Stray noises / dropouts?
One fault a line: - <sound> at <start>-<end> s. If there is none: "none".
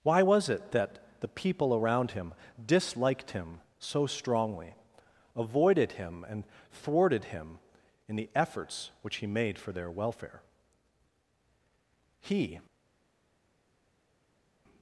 none